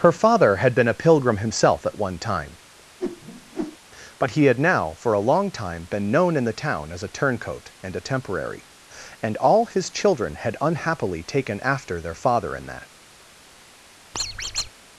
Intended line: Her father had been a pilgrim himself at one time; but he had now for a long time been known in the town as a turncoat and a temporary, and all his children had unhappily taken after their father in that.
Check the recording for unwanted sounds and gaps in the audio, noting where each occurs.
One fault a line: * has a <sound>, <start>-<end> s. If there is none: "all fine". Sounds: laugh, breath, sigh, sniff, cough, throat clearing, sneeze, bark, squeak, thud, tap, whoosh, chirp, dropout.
* has a whoosh, 3.0-3.8 s
* has a squeak, 14.1-14.7 s